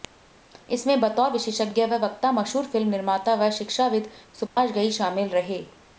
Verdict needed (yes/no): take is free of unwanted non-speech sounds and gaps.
no